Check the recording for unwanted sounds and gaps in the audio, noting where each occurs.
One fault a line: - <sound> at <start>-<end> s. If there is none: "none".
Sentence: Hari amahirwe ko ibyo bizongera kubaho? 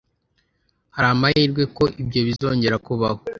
- dropout at 2.4-2.4 s